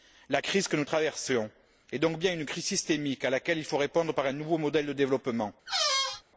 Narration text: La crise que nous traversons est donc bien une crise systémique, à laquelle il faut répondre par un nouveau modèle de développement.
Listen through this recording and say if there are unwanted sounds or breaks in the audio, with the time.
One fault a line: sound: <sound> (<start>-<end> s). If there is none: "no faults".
sound: squeak (5.7-6.2 s)